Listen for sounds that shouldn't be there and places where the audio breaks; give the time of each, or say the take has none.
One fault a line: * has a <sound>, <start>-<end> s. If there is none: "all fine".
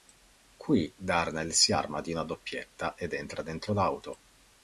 all fine